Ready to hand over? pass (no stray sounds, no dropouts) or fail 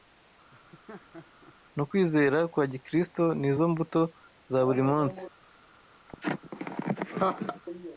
fail